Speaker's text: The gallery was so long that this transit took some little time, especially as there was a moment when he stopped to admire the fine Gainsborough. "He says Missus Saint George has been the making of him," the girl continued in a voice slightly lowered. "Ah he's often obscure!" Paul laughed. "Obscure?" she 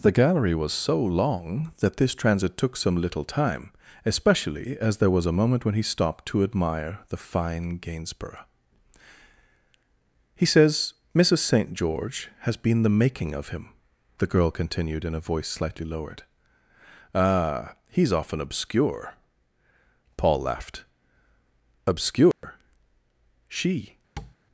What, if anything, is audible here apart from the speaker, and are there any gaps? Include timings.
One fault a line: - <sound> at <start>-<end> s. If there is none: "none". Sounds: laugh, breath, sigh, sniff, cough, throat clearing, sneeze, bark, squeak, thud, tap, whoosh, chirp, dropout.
- dropout at 22.3-22.4 s
- tap at 24.2-24.4 s